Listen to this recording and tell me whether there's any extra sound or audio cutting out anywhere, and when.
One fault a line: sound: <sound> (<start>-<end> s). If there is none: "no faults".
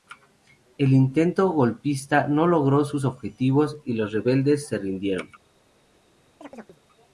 sound: chirp (6.4-6.8 s)